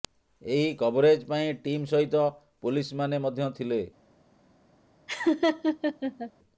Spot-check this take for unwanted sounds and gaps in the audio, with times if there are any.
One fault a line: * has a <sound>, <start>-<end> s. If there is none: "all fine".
* has a laugh, 5.1-6.3 s